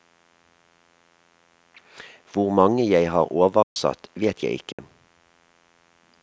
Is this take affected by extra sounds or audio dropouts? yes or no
yes